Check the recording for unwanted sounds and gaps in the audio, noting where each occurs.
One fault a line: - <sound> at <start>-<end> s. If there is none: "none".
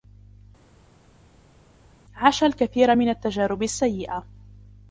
none